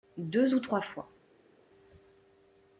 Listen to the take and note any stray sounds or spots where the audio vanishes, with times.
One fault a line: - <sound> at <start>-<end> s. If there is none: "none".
none